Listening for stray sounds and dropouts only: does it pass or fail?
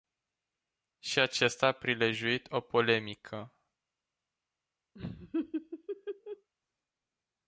fail